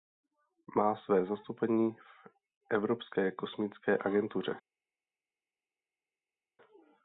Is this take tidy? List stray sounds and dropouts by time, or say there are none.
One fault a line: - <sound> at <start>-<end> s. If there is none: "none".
none